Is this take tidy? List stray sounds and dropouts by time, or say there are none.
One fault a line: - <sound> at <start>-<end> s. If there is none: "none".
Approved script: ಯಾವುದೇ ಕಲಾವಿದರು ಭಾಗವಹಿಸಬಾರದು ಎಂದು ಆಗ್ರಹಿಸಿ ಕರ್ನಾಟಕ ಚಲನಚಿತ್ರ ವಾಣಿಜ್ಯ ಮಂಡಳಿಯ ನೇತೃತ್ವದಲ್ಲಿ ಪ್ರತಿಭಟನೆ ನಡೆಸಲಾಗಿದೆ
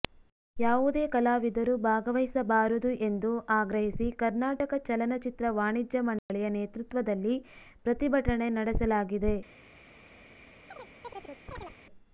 - dropout at 6.2-6.3 s
- chirp at 10.7-11.8 s